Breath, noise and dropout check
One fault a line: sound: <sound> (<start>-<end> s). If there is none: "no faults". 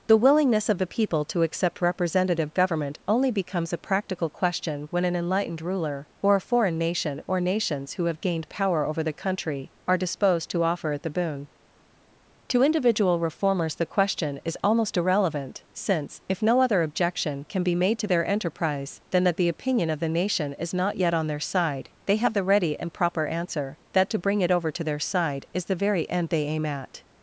no faults